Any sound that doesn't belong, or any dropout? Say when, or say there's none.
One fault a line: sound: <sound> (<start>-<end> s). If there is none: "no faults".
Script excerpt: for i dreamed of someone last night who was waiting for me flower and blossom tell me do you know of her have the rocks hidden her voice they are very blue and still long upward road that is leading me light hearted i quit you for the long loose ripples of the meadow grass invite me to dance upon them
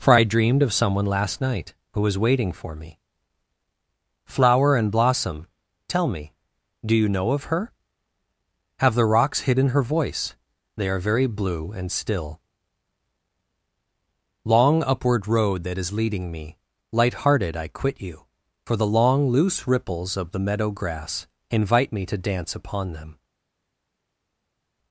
no faults